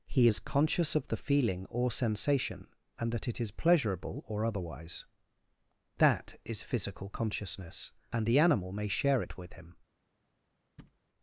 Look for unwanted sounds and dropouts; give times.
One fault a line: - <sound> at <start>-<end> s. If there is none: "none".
- thud at 10.8-11.0 s